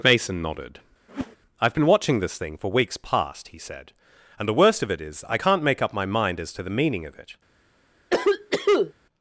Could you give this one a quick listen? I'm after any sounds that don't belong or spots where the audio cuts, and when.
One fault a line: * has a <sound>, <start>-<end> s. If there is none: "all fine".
* has a whoosh, 1.1-1.4 s
* has a cough, 8.1-8.9 s